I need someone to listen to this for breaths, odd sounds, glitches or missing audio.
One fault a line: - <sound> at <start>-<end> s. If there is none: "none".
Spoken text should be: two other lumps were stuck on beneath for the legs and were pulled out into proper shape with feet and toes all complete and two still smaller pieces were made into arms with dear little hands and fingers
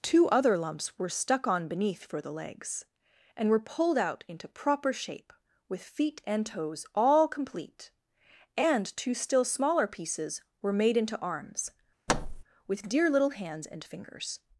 - thud at 12.1-12.4 s